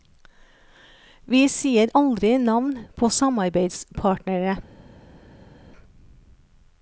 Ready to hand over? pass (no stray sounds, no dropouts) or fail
pass